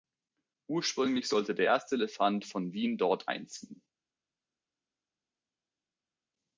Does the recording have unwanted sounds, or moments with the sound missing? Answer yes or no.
no